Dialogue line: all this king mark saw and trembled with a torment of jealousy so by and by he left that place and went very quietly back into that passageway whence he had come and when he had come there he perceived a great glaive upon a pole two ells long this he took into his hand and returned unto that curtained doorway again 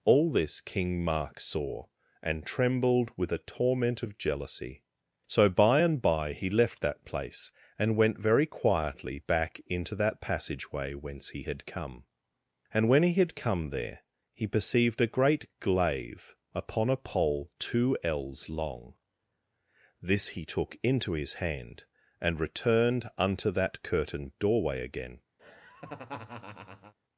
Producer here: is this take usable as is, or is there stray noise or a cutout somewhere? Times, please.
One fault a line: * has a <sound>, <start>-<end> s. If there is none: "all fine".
* has a laugh, 25.4-26.9 s